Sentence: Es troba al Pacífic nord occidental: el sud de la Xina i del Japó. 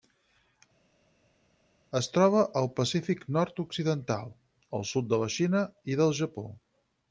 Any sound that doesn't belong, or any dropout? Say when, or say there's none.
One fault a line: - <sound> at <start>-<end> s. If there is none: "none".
none